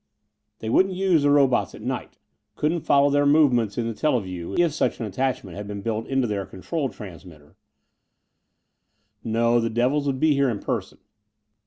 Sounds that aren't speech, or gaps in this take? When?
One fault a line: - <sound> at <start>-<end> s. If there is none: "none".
none